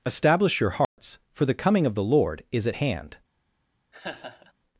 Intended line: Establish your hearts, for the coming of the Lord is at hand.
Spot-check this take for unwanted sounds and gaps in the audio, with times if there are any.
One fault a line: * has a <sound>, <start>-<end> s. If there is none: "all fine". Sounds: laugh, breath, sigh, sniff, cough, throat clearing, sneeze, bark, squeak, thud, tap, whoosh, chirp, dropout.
* has a dropout, 0.8-1.0 s
* has a laugh, 3.9-4.5 s